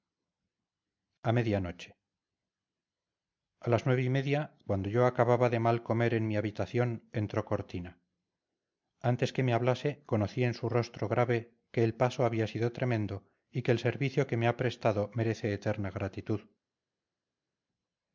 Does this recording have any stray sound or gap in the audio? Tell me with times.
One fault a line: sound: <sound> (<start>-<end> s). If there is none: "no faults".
no faults